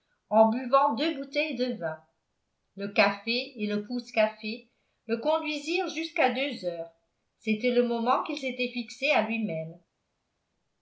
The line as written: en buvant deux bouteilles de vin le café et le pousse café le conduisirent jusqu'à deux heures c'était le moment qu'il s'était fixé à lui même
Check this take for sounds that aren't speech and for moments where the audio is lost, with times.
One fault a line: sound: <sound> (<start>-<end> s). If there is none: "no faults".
no faults